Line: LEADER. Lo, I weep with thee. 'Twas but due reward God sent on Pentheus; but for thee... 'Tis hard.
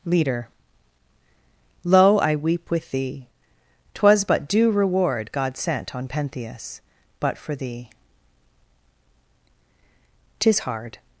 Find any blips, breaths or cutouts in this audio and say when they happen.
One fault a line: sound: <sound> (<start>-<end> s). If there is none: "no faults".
no faults